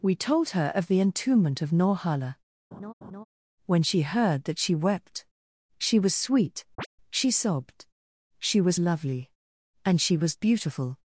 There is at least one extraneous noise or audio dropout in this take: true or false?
true